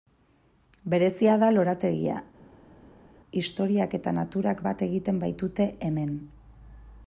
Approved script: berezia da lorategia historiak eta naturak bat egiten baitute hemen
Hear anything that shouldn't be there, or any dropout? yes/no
no